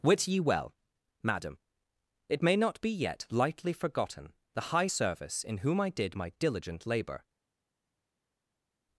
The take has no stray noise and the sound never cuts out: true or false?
true